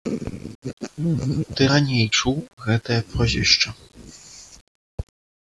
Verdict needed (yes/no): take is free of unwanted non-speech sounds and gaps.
yes